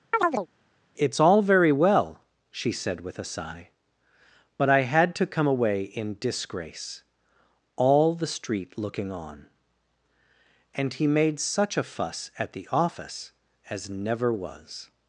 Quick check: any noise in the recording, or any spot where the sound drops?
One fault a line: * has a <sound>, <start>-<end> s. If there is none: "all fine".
* has a chirp, 0.1-0.5 s